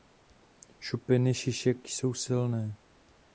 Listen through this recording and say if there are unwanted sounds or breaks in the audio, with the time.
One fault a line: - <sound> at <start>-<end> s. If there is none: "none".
none